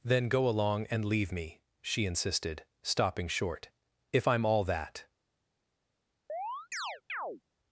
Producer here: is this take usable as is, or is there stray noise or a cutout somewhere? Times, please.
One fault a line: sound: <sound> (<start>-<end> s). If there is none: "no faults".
sound: chirp (6.3-7.4 s)